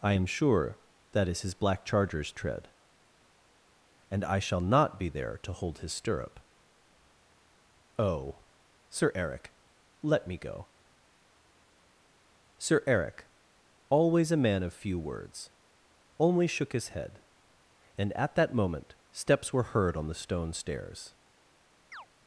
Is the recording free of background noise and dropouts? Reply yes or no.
no